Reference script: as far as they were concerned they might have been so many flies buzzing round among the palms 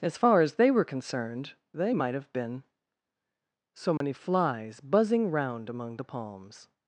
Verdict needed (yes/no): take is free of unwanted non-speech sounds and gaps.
no